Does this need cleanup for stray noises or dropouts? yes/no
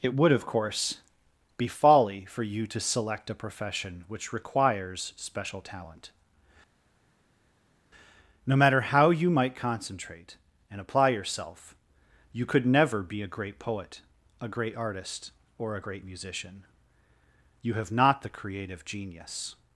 no